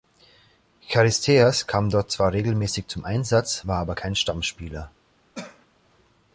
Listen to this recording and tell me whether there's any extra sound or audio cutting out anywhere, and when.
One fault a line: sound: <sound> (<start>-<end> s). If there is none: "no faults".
sound: cough (5.3-5.7 s)